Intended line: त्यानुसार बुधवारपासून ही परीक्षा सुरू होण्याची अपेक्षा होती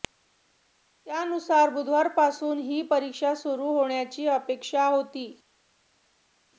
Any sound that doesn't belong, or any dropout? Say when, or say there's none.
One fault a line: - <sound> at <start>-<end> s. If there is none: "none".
none